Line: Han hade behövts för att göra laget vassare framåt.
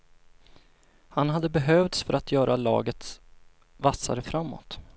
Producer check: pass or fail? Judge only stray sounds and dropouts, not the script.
pass